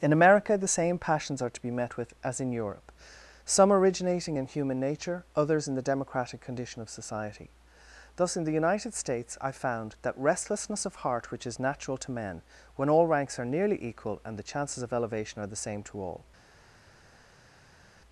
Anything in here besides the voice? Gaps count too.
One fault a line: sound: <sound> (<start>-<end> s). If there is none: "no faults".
no faults